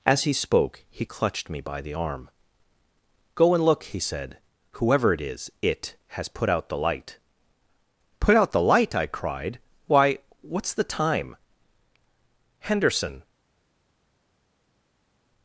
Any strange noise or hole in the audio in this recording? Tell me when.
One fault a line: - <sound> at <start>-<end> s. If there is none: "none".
none